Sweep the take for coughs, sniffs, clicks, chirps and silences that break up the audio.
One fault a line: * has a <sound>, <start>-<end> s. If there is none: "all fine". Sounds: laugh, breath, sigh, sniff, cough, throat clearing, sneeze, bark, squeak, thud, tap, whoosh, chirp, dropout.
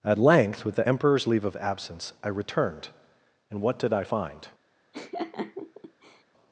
* has a laugh, 4.9-6.2 s